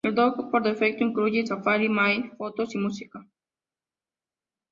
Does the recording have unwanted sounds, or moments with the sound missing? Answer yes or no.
no